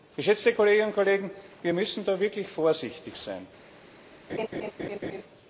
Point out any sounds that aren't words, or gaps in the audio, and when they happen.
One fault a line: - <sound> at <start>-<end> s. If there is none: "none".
- laugh at 4.3-5.2 s